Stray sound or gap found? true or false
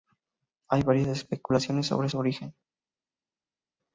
false